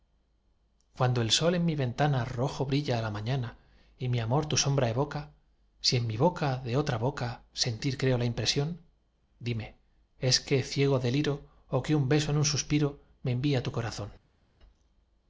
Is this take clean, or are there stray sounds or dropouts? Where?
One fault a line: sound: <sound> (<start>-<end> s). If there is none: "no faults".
no faults